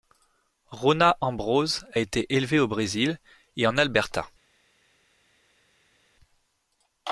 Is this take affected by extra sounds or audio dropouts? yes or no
no